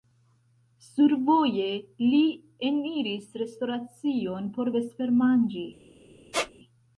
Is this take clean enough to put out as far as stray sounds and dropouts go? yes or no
no